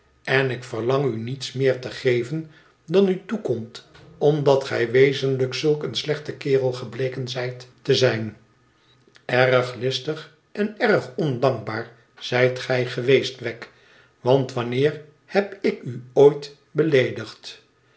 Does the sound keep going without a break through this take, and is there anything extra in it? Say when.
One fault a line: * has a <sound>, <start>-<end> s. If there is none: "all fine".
all fine